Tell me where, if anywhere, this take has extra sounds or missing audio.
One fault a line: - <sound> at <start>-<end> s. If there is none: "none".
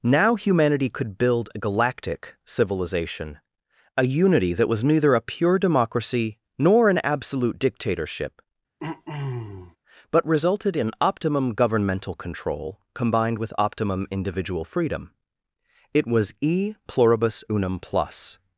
- throat clearing at 8.8-9.8 s